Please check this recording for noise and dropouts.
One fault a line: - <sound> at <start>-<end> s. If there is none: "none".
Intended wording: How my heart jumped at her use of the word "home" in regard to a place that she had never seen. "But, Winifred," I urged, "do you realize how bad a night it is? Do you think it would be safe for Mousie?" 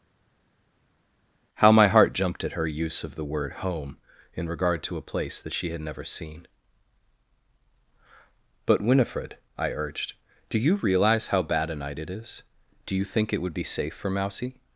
none